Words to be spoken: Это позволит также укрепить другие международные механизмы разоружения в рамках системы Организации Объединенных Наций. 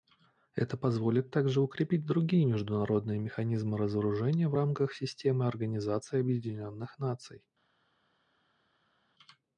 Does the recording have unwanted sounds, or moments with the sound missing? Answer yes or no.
no